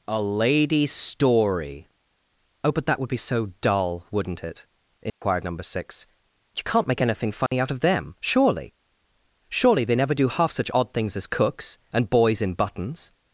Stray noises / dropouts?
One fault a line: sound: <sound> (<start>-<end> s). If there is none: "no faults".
sound: dropout (5.1-5.2 s)
sound: dropout (7.5-7.5 s)